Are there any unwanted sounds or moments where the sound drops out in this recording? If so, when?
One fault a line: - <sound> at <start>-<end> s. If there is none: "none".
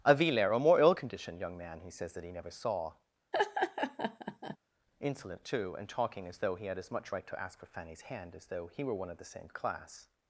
- laugh at 3.3-4.6 s